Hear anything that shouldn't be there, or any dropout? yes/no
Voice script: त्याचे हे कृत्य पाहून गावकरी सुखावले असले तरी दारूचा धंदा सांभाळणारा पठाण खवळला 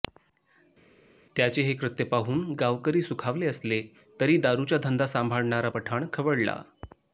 no